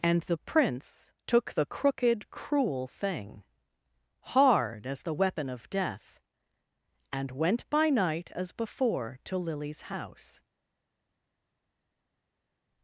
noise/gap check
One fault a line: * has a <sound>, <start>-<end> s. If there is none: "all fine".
all fine